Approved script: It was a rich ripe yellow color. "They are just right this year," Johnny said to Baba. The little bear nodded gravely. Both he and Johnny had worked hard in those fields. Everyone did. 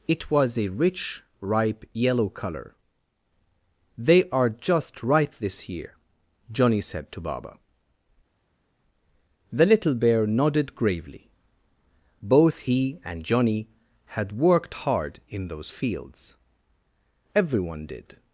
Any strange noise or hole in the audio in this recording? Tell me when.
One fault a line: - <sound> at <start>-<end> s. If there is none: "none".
none